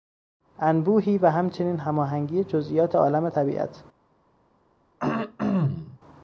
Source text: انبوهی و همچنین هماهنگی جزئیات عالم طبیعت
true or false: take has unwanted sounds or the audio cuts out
true